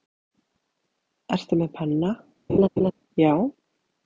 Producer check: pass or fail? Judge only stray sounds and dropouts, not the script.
fail